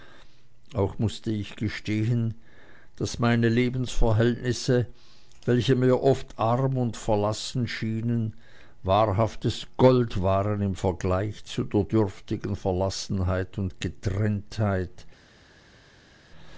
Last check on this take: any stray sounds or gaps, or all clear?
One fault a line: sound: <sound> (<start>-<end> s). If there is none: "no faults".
no faults